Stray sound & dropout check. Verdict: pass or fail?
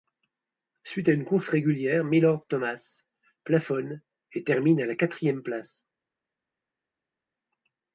pass